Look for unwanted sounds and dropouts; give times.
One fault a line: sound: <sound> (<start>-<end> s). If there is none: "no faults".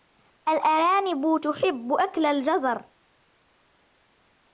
no faults